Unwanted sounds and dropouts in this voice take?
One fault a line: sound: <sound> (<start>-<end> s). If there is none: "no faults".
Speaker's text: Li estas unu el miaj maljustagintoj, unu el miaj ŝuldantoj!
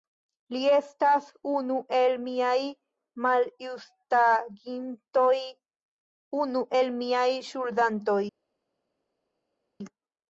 no faults